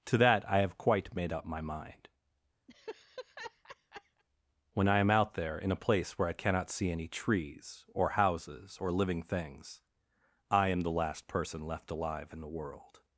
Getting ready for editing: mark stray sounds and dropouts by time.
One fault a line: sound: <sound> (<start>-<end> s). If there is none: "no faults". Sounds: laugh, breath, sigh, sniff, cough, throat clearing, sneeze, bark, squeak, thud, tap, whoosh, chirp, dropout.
sound: laugh (2.7-4.2 s)